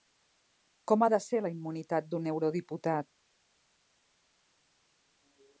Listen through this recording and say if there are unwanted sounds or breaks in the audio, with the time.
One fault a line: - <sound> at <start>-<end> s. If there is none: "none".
none